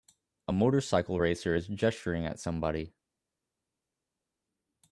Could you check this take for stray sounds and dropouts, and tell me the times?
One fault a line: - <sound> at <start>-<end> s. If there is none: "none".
none